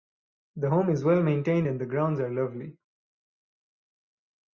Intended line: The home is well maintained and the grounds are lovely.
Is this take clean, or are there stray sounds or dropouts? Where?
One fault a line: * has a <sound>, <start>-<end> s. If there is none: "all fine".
all fine